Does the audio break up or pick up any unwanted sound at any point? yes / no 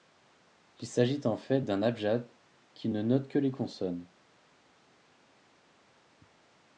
no